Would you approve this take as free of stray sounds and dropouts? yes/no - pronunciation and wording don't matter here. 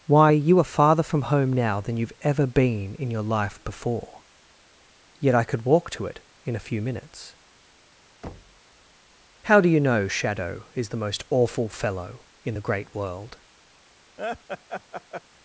no